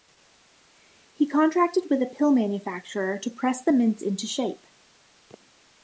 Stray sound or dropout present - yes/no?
no